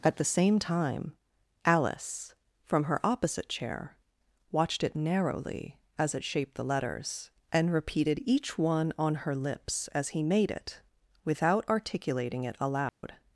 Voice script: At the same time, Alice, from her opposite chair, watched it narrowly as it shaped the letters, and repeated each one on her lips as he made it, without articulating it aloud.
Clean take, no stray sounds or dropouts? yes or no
no